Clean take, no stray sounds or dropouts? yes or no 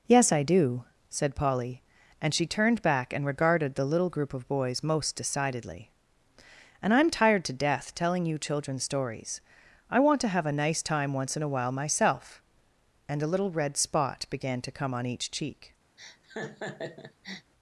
no